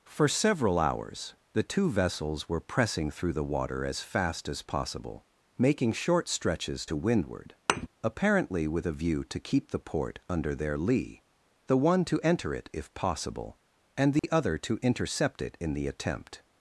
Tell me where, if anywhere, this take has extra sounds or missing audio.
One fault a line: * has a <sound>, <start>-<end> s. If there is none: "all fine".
* has a thud, 7.7-7.9 s
* has a dropout, 14.2-14.2 s